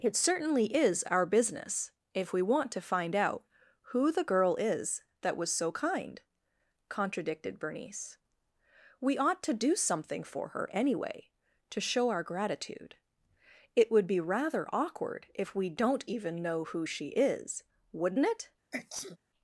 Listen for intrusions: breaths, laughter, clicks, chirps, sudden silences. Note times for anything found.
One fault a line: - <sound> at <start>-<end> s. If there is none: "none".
- sneeze at 18.7-19.2 s